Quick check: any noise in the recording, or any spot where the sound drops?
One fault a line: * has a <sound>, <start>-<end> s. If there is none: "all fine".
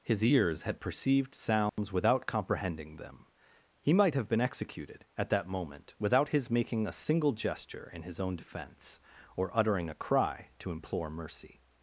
* has a dropout, 1.7-1.8 s